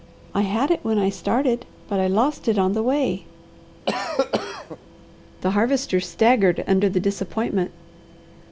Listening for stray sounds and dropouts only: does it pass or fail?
fail